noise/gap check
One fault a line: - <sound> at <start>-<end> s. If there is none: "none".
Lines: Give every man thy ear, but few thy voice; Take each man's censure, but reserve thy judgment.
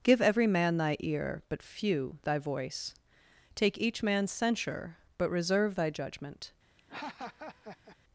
- laugh at 6.8-8.0 s